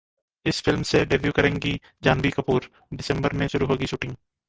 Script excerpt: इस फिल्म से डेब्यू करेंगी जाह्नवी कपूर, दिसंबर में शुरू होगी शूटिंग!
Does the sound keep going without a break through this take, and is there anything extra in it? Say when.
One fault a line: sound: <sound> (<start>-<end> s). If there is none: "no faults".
no faults